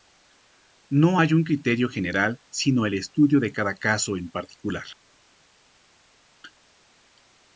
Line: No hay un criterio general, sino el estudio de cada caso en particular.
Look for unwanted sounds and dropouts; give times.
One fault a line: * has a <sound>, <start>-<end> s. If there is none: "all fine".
all fine